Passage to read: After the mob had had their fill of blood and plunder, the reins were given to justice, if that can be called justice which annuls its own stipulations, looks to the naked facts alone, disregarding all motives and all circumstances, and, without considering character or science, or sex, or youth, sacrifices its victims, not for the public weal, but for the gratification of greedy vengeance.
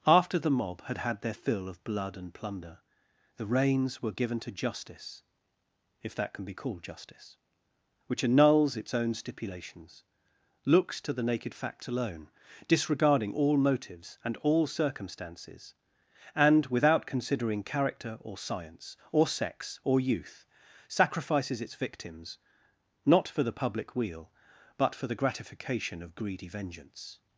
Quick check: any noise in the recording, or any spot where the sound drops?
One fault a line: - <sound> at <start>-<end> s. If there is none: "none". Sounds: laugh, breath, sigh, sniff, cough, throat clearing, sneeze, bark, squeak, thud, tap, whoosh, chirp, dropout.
none